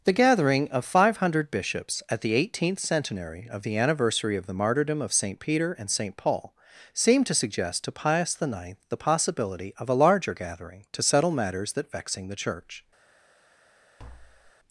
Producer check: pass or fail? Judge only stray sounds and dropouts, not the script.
fail